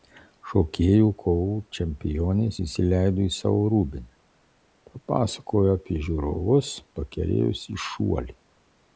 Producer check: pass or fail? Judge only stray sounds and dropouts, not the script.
pass